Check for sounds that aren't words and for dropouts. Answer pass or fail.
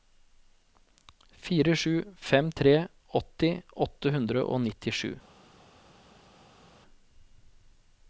pass